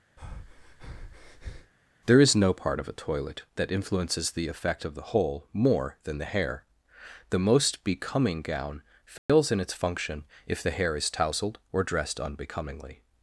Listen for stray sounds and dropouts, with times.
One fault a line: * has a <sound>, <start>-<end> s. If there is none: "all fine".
* has a breath, 0.2-1.7 s
* has a dropout, 9.2-9.3 s